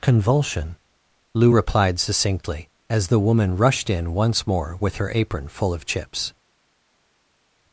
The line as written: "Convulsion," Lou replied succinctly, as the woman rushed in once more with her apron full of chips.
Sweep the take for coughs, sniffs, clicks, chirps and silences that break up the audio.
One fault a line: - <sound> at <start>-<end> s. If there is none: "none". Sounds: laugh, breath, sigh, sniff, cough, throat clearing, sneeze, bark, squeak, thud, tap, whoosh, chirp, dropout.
none